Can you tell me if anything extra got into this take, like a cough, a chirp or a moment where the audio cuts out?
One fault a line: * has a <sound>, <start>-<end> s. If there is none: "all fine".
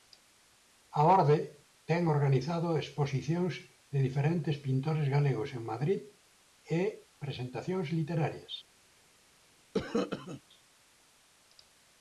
* has a cough, 9.7-10.4 s